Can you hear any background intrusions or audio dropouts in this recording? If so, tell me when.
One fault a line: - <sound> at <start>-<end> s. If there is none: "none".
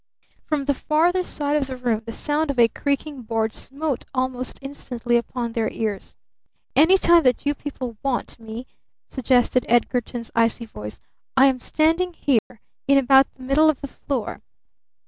- dropout at 12.4-12.5 s